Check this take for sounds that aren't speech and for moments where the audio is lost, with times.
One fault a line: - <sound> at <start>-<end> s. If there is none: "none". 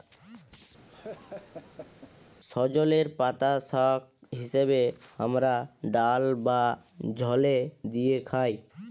- laugh at 0.9-2.1 s